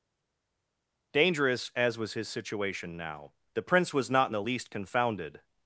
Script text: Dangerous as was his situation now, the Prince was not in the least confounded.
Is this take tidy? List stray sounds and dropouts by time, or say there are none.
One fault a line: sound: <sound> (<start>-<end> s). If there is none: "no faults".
no faults